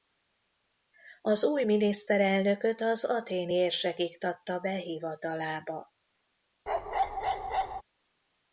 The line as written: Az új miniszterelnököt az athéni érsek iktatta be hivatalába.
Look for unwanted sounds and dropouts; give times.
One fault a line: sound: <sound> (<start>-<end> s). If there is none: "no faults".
sound: bark (6.7-7.8 s)